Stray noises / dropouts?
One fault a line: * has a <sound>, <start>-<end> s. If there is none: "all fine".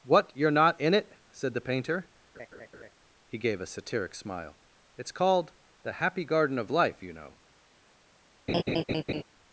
* has a laugh, 2.3-2.9 s
* has a laugh, 8.5-9.2 s